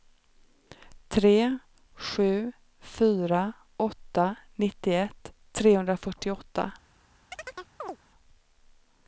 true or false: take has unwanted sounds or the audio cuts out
true